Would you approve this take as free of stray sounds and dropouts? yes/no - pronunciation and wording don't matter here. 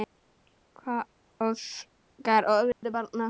no